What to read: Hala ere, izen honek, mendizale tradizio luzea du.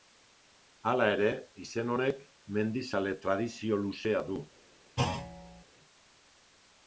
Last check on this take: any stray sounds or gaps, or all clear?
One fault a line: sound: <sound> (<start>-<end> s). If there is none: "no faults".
sound: thud (5.0-5.6 s)